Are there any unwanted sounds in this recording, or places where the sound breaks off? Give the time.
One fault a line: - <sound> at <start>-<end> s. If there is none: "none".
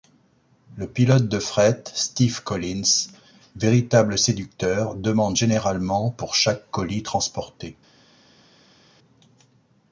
none